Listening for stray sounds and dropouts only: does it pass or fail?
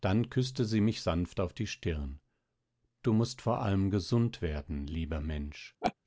fail